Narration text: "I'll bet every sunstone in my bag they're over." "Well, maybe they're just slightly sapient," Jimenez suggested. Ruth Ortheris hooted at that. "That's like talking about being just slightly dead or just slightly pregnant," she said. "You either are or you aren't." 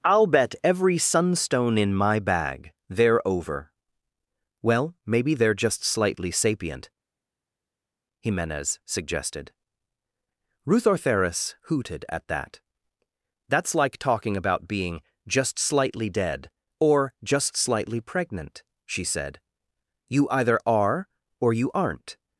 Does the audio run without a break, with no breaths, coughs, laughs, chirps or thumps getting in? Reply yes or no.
yes